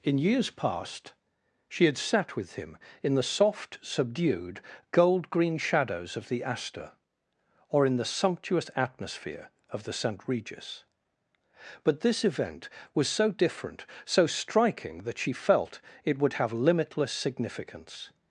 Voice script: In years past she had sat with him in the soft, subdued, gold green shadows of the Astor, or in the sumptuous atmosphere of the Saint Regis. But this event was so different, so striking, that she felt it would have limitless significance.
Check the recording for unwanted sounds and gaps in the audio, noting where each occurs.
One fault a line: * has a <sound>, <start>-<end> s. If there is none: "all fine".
all fine